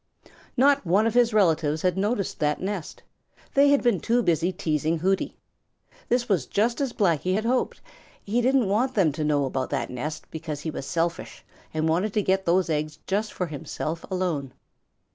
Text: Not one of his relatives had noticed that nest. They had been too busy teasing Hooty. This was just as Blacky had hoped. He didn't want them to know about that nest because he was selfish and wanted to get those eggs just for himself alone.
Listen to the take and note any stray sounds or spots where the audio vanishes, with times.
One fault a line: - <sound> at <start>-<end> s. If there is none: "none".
none